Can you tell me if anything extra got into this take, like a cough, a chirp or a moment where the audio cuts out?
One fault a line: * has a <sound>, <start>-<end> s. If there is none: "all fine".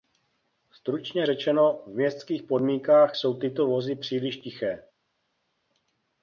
all fine